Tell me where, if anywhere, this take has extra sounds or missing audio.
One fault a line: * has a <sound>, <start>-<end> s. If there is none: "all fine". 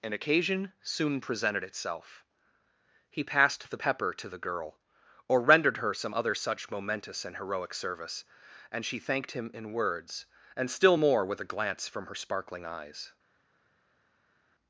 all fine